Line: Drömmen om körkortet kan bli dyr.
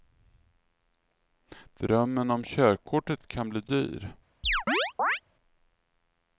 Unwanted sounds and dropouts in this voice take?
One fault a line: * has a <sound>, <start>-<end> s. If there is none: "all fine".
* has a chirp, 4.4-5.2 s